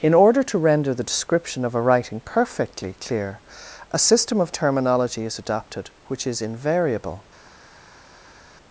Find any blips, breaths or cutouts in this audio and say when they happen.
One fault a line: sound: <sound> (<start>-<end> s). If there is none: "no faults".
no faults